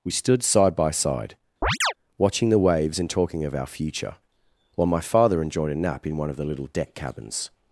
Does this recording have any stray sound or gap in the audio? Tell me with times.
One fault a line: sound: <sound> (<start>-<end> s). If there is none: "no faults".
sound: chirp (1.6-1.9 s)